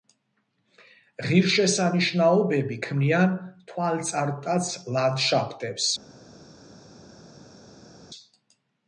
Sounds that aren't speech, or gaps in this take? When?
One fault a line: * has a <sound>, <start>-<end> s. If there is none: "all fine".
all fine